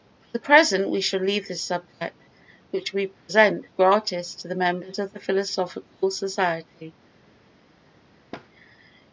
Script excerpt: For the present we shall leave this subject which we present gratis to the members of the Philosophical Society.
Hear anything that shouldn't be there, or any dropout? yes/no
yes